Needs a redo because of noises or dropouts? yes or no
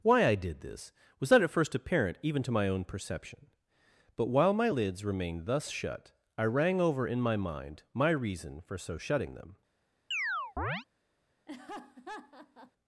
yes